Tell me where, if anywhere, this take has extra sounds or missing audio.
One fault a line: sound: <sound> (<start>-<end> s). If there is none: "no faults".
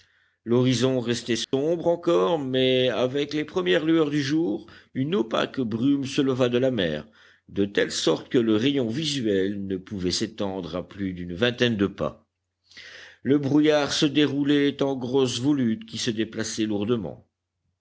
sound: dropout (1.4-1.5 s)